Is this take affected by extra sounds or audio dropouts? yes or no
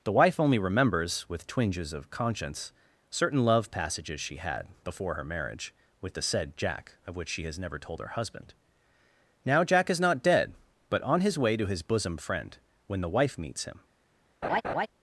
yes